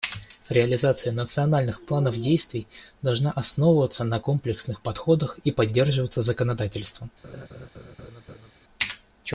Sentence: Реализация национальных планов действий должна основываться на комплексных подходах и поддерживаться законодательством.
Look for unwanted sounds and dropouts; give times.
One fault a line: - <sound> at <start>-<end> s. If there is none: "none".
- laugh at 7.2-8.5 s